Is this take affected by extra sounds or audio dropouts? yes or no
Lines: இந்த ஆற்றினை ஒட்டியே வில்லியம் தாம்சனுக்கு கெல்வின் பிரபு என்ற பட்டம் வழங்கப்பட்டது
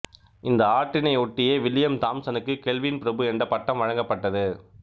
no